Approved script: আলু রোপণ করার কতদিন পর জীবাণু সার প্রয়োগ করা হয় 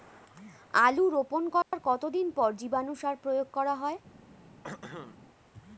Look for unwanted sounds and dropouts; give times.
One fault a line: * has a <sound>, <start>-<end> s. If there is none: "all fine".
* has a dropout, 1.6-1.7 s
* has a throat clearing, 4.6-5.2 s